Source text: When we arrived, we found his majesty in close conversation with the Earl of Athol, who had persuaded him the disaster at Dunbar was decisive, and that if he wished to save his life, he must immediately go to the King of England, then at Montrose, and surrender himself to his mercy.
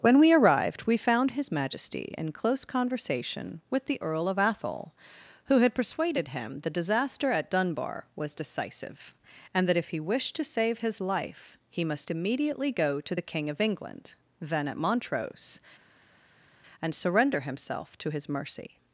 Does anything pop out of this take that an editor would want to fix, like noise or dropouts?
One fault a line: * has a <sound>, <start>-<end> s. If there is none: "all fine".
all fine